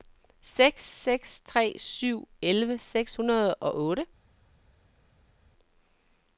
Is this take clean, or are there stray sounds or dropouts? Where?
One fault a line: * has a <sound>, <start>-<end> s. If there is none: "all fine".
all fine